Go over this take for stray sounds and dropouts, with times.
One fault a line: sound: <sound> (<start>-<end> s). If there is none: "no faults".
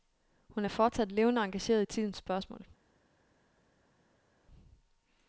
no faults